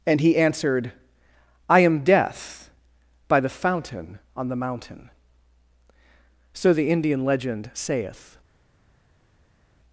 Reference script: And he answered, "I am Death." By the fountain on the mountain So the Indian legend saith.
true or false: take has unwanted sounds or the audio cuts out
false